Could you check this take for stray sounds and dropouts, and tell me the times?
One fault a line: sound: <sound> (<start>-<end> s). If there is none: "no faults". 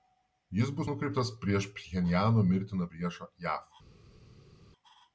no faults